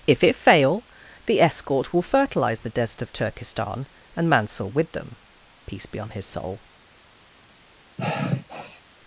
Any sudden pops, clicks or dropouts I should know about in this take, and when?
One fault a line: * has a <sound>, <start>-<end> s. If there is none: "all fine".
* has a sigh, 8.0-8.8 s